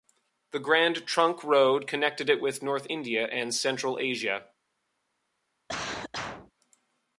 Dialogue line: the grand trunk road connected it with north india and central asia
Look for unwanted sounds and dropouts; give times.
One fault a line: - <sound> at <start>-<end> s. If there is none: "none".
- cough at 5.7-6.5 s